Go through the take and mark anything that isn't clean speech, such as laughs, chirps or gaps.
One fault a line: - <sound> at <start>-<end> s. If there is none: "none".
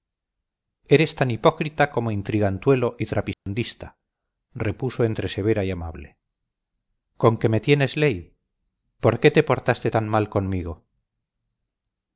- dropout at 3.3-3.5 s